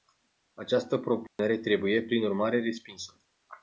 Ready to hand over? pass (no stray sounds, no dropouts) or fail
fail